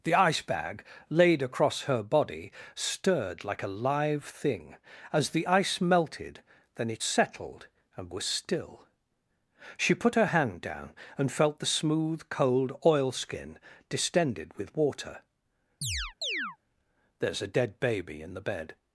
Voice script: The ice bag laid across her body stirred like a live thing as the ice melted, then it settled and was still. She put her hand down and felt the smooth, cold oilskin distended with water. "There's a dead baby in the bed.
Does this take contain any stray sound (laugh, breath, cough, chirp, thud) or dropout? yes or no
yes